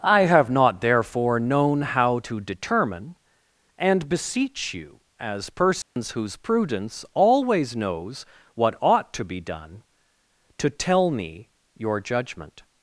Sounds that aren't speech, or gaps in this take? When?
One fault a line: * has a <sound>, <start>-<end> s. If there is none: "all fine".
* has a dropout, 5.8-6.0 s